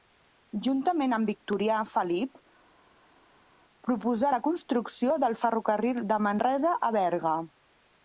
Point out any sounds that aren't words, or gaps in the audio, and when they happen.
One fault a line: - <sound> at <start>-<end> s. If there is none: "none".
none